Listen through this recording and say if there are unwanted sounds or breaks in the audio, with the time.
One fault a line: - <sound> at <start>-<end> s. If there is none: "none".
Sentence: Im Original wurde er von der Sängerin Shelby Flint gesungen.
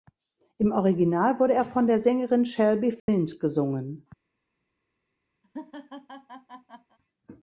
- dropout at 3.0-3.1 s
- laugh at 5.4-7.0 s